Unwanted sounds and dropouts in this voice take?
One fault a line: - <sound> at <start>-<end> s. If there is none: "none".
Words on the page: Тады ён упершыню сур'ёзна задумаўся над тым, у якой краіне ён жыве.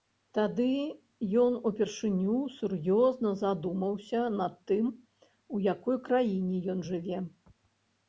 none